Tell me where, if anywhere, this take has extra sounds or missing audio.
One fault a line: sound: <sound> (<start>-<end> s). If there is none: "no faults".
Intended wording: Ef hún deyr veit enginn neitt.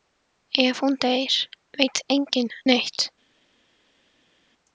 no faults